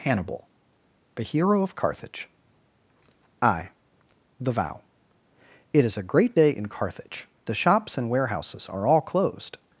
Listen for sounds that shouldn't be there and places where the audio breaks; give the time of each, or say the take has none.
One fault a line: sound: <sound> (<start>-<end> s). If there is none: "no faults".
no faults